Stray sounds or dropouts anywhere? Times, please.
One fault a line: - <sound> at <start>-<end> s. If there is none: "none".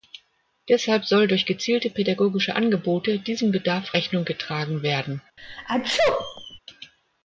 - sneeze at 5.4-6.6 s